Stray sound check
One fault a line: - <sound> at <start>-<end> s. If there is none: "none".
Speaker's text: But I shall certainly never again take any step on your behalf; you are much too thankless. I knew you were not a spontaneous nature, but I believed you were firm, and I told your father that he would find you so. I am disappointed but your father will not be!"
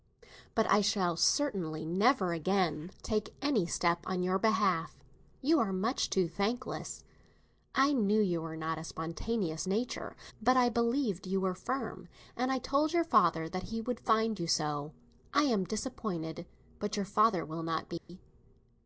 - dropout at 18.0-18.1 s